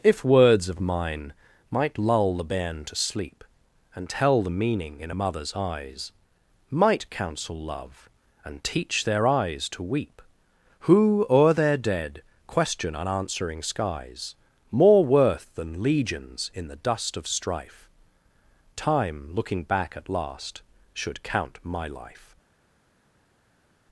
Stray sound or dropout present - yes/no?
no